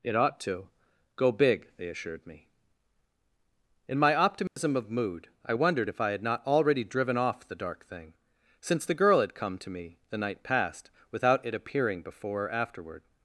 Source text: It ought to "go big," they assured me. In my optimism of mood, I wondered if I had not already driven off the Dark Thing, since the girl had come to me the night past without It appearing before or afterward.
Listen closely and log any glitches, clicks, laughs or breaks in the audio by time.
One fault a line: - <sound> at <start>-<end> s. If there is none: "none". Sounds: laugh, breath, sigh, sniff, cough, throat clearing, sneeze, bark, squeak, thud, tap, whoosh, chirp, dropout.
- dropout at 4.5-4.6 s